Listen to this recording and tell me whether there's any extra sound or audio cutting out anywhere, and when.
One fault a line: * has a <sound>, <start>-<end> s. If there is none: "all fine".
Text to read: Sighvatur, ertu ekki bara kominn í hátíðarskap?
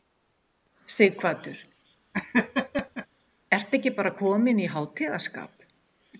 * has a laugh, 2.1-3.1 s